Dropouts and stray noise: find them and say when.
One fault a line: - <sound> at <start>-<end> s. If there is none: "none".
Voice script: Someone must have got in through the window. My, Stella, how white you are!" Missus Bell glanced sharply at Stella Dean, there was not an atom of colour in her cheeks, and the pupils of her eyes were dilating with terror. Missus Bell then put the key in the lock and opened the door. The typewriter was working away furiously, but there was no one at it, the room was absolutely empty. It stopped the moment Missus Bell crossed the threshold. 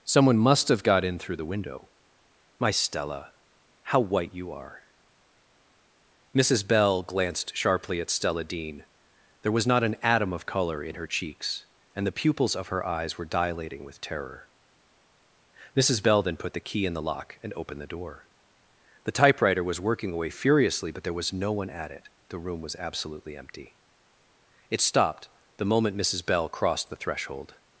none